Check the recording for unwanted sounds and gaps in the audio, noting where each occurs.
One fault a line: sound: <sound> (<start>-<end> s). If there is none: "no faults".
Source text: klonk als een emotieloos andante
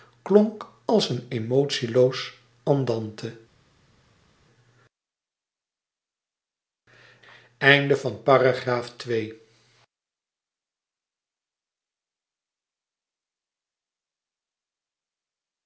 no faults